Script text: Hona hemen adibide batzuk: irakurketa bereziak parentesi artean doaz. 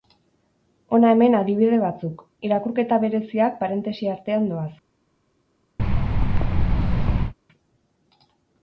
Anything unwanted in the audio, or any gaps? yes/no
yes